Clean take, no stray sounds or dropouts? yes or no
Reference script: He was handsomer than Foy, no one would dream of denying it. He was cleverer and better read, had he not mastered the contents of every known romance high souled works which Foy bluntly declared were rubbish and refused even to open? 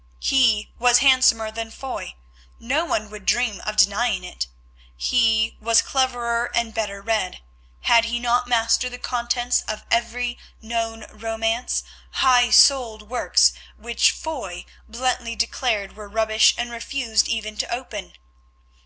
yes